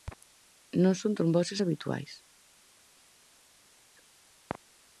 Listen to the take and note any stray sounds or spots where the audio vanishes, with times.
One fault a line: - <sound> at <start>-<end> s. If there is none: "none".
none